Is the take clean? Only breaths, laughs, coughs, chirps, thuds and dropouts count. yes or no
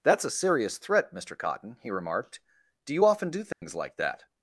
no